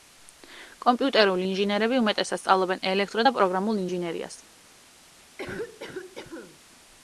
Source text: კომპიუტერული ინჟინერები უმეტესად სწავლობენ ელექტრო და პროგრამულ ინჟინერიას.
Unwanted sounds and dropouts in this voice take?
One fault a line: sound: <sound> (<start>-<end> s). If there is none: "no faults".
sound: cough (5.4-6.6 s)